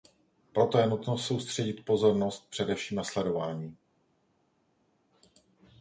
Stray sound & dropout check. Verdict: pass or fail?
pass